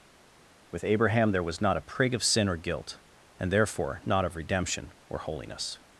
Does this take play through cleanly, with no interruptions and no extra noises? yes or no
yes